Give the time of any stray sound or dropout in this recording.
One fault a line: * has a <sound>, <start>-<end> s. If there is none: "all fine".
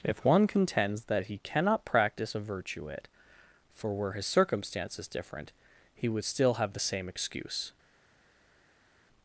all fine